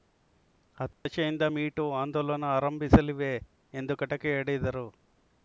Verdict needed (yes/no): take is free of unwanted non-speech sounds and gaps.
no